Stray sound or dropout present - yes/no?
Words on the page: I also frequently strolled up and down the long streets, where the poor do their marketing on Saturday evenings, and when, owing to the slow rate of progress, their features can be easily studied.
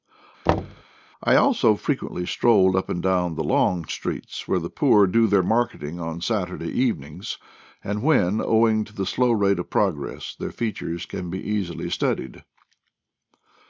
yes